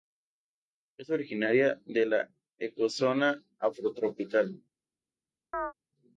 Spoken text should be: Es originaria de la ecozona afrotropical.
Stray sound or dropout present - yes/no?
yes